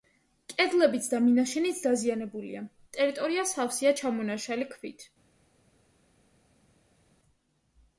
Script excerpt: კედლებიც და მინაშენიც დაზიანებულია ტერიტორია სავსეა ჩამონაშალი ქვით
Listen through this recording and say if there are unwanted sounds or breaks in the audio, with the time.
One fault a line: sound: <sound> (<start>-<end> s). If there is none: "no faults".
no faults